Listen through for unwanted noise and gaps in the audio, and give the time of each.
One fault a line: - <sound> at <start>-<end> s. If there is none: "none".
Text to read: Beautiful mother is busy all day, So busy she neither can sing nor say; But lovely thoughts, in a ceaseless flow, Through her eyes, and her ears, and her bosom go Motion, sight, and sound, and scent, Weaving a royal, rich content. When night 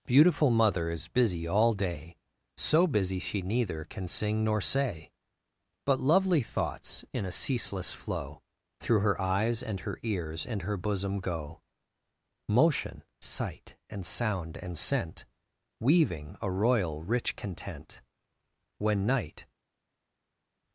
none